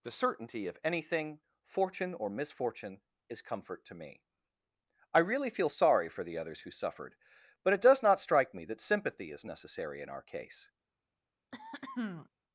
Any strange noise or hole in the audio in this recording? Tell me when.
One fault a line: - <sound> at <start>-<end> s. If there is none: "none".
- throat clearing at 11.5-12.3 s